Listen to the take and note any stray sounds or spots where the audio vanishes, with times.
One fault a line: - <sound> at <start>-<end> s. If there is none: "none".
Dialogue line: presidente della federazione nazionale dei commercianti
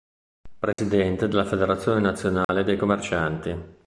- dropout at 0.7-0.8 s
- dropout at 2.4-2.5 s